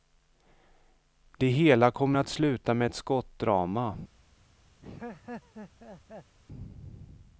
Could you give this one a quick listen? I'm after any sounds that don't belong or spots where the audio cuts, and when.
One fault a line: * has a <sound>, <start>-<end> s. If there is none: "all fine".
* has a laugh, 4.8-6.4 s